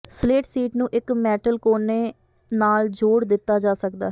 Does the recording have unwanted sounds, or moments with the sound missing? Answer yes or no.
no